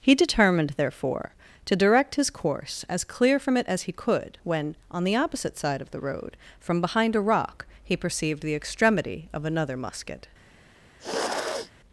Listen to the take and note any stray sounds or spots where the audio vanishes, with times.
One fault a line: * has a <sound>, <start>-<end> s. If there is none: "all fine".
* has a sniff, 11.0-11.7 s